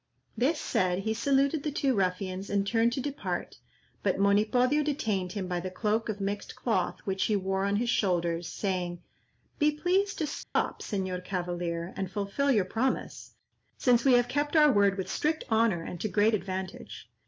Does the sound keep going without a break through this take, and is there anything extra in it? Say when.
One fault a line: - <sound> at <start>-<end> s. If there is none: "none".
- dropout at 10.4-10.6 s